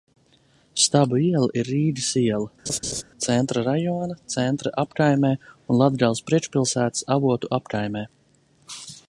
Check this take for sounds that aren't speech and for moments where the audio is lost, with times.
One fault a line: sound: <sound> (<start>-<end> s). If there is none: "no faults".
sound: laugh (2.7-3.0 s)